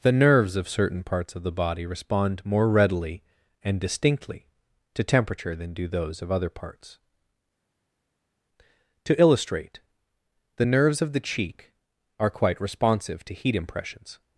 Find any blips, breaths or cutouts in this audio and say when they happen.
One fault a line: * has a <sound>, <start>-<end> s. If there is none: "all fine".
all fine